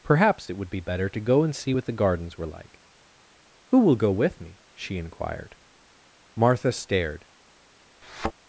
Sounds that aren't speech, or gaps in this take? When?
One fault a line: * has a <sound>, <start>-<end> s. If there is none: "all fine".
* has a thud, 8.0-8.3 s